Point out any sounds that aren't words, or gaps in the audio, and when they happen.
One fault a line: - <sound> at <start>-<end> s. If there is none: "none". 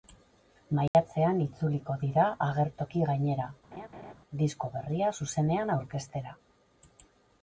- dropout at 0.9-0.9 s
- laugh at 3.7-4.1 s